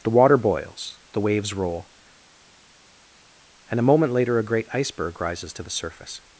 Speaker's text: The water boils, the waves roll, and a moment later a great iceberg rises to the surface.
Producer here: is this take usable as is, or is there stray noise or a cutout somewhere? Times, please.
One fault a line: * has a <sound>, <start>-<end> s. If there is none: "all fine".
all fine